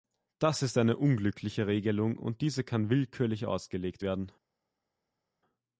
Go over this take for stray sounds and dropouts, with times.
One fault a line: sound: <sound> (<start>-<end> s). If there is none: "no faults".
no faults